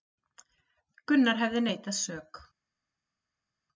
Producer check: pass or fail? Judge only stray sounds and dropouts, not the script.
pass